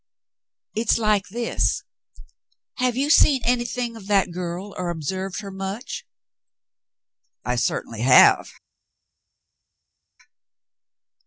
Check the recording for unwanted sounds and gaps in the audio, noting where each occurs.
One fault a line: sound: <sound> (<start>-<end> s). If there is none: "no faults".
no faults